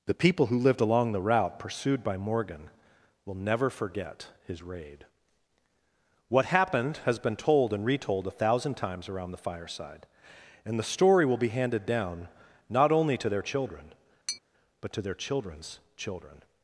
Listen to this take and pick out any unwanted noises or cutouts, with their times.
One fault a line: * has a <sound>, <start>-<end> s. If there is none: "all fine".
* has a tap, 14.3-14.4 s